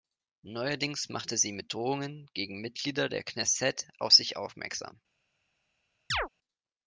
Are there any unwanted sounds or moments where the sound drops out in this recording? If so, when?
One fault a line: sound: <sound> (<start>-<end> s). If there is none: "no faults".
sound: chirp (6.1-6.3 s)